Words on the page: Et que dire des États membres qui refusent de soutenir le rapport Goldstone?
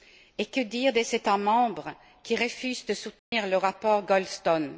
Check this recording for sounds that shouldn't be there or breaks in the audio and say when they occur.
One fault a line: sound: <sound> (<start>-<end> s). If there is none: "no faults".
sound: dropout (3.2-3.3 s)